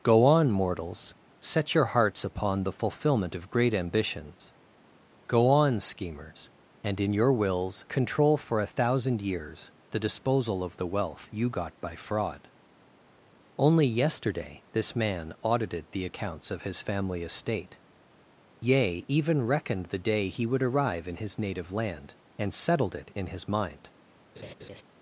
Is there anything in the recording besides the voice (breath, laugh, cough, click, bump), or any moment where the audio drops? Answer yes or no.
yes